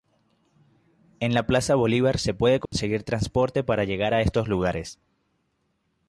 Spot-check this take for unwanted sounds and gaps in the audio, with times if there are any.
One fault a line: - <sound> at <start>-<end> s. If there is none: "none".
- dropout at 2.7-2.7 s